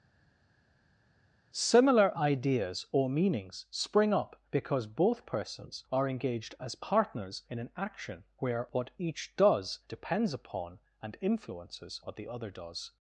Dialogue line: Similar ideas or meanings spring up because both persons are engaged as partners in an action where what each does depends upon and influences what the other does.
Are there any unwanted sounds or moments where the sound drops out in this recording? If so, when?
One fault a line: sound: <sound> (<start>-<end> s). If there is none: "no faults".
no faults